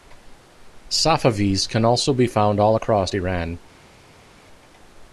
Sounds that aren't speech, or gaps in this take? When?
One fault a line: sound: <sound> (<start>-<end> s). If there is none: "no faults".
no faults